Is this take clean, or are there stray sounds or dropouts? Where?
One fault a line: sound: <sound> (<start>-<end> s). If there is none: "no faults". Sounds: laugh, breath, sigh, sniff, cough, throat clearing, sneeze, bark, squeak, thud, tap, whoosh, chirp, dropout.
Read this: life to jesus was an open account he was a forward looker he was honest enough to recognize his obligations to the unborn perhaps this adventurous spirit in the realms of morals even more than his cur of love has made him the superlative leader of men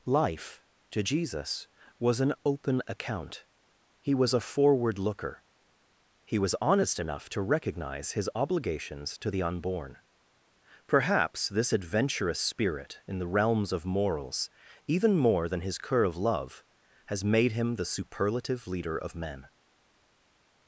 no faults